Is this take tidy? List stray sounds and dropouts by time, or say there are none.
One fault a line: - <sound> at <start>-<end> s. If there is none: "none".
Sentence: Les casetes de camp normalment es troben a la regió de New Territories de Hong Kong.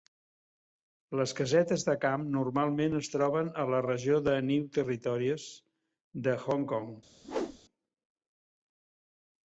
- whoosh at 7.2-7.6 s